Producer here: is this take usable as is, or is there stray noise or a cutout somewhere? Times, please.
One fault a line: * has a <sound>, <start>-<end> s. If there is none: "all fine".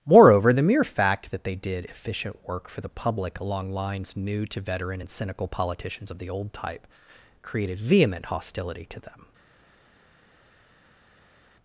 all fine